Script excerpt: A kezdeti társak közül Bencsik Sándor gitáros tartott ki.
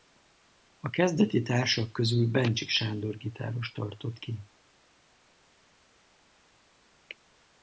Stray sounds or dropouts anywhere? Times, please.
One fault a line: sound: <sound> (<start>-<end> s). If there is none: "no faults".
no faults